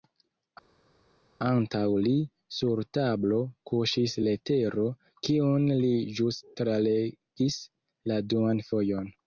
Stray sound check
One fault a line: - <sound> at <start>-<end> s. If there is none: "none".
none